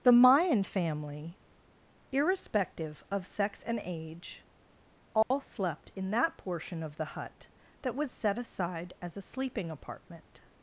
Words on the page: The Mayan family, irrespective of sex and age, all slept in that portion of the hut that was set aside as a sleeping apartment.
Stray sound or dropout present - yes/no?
yes